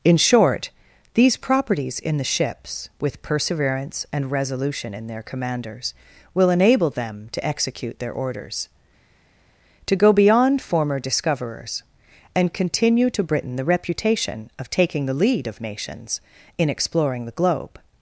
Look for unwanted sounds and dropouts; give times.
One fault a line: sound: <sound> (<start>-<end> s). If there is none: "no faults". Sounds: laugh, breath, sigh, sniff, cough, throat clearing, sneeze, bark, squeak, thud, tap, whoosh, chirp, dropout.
no faults